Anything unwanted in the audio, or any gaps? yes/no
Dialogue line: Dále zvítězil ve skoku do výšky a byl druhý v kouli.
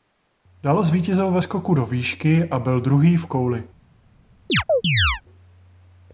yes